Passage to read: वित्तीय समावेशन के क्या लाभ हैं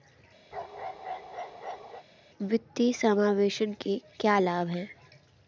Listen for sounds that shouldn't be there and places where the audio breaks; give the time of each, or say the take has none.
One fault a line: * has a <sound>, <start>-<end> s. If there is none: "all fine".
* has a bark, 0.5-2.0 s